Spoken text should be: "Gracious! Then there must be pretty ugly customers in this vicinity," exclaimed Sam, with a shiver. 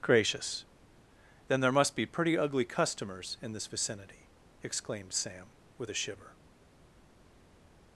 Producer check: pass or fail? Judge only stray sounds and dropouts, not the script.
pass